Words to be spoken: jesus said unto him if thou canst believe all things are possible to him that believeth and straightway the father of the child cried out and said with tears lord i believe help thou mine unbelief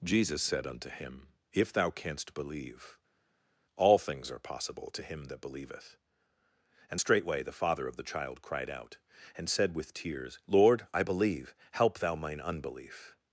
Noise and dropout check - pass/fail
pass